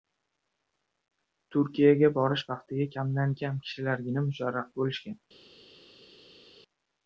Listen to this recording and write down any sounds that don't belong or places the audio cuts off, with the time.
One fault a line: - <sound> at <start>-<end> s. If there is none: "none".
none